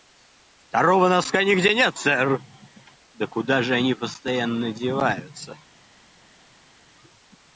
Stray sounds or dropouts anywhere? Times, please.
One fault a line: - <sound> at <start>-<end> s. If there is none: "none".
none